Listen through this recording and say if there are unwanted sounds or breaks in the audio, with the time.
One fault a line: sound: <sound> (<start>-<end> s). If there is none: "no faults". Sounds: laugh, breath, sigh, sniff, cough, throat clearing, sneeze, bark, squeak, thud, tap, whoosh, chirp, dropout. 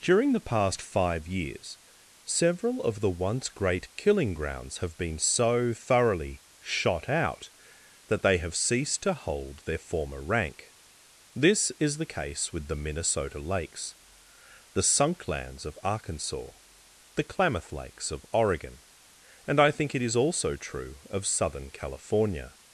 no faults